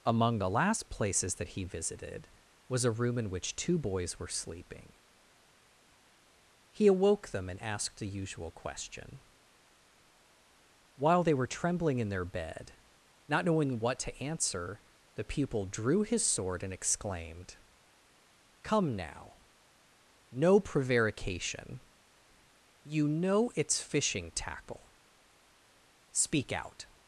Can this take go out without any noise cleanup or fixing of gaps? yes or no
yes